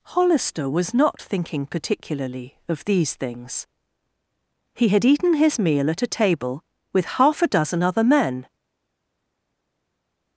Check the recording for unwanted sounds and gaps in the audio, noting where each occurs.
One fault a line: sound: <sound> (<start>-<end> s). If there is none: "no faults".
no faults